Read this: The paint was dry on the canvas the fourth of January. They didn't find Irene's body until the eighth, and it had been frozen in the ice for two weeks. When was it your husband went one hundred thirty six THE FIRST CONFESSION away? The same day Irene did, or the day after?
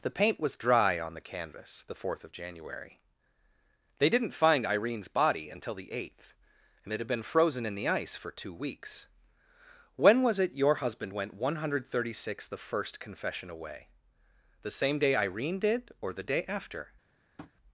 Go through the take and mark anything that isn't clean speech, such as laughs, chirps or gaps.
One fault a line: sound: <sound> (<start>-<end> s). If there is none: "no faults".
sound: tap (17.4-17.5 s)